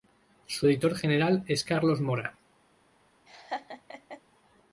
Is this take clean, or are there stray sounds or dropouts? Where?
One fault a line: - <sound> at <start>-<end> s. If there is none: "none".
- laugh at 3.3-4.2 s